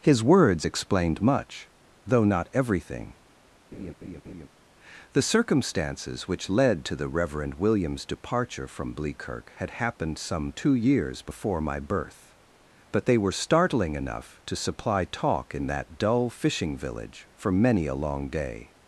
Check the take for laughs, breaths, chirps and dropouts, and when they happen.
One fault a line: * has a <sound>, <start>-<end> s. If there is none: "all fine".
* has a laugh, 3.7-4.5 s